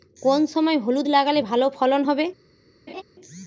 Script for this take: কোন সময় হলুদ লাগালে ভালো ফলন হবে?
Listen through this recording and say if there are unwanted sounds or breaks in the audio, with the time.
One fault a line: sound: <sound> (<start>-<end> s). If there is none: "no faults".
sound: laugh (2.9-3.0 s)